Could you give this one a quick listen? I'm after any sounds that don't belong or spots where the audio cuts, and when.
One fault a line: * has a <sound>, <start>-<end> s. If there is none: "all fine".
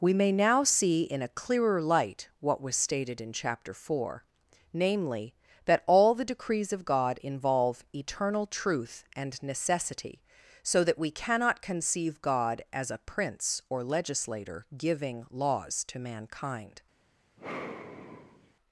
* has a sigh, 17.4-18.5 s